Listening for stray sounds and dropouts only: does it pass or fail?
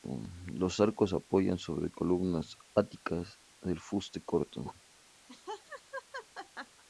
fail